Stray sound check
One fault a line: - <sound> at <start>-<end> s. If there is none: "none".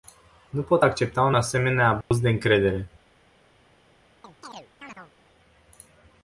- dropout at 2.0-2.1 s
- chirp at 4.2-5.1 s